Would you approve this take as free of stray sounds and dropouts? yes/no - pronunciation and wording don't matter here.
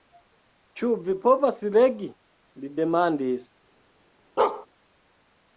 no